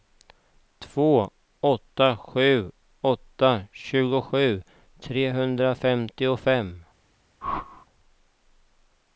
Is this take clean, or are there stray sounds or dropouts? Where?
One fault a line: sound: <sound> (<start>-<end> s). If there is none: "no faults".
sound: whoosh (7.4-7.9 s)